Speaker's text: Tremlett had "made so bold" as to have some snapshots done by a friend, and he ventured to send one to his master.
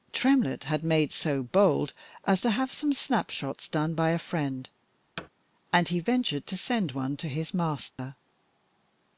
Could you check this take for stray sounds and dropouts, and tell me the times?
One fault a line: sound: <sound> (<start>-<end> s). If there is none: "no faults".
sound: thud (5.2-5.3 s)
sound: dropout (7.9-8.0 s)